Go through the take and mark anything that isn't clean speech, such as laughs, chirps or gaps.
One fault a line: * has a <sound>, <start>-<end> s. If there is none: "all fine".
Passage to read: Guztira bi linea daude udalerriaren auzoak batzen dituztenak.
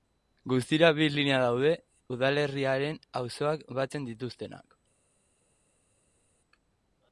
all fine